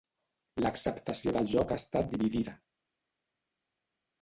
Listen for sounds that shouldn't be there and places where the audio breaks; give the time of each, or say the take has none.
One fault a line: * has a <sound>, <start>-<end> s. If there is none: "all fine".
all fine